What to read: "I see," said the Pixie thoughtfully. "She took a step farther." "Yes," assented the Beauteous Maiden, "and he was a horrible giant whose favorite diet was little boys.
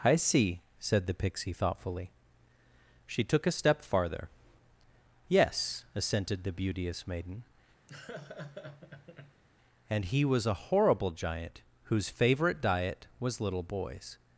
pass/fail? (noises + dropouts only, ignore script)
fail